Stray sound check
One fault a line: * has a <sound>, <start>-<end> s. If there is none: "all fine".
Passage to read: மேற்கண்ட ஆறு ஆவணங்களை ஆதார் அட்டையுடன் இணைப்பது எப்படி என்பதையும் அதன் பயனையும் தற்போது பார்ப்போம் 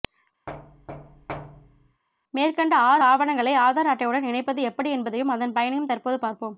* has a thud, 0.5-2.0 s